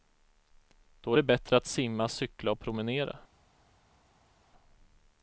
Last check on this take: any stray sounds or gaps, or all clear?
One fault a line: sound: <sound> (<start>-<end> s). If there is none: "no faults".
no faults